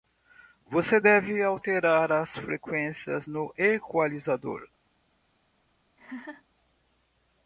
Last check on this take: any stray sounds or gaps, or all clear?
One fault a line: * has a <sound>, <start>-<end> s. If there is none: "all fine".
* has a laugh, 6.0-6.4 s